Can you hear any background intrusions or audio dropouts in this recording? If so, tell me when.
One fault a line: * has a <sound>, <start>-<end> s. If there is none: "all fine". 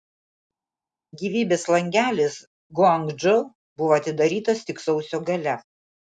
all fine